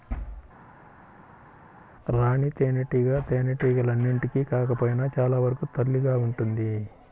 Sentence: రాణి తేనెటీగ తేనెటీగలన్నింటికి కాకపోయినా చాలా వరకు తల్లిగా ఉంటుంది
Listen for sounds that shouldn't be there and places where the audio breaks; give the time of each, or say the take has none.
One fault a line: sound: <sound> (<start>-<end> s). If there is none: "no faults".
no faults